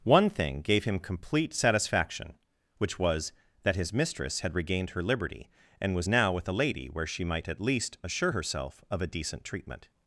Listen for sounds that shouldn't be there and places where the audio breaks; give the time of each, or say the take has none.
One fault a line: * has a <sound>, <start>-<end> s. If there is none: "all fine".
all fine